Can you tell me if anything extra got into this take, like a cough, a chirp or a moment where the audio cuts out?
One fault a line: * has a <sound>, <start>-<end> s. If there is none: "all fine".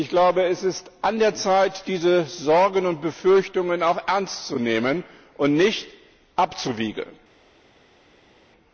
all fine